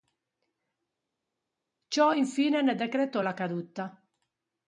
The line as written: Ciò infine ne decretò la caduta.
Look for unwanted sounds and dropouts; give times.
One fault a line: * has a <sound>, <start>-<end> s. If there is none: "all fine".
all fine